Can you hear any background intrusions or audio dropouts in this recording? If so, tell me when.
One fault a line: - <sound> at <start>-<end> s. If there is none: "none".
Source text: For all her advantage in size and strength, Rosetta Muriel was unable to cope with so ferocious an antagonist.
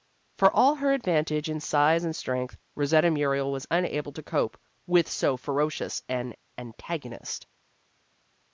none